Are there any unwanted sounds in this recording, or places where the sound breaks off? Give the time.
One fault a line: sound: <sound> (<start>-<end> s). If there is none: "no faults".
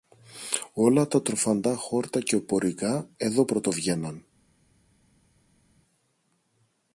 no faults